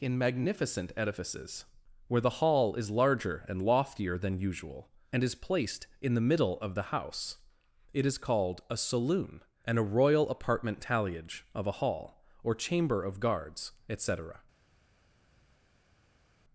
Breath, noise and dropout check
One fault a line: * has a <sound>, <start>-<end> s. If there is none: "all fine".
all fine